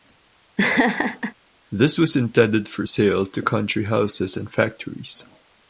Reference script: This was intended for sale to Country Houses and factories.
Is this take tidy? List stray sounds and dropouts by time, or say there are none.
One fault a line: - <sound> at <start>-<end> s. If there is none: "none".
- laugh at 0.6-1.3 s